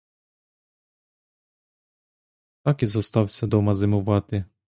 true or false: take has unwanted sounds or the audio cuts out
false